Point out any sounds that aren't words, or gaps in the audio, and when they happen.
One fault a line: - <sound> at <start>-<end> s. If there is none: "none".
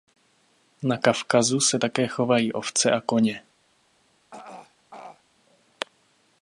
- throat clearing at 4.3-5.2 s